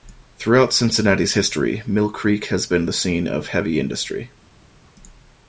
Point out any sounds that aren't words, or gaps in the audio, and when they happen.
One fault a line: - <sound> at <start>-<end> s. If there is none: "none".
none